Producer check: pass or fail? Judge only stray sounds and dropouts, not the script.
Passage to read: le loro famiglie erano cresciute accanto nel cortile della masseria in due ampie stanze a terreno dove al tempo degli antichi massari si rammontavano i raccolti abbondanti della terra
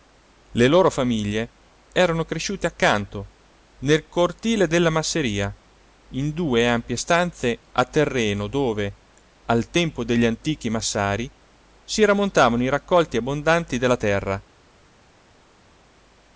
pass